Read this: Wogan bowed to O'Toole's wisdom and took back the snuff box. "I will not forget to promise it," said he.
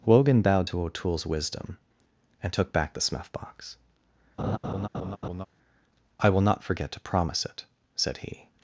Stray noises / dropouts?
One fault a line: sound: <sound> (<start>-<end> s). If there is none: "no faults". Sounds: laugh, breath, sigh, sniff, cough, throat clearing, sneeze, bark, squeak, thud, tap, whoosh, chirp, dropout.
sound: laugh (4.4-5.5 s)